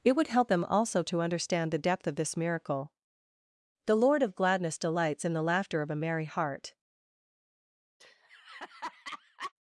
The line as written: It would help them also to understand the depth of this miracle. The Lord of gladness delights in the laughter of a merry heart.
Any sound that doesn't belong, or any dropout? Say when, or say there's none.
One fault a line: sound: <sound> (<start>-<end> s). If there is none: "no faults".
sound: laugh (8.0-9.5 s)